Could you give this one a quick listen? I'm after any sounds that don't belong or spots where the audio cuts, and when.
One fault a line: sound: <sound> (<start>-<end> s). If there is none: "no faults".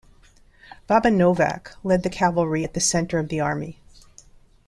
no faults